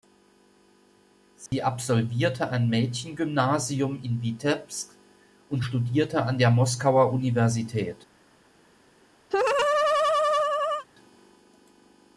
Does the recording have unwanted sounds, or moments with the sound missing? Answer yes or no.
yes